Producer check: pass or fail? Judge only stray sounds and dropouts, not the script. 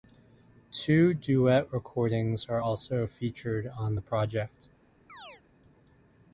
fail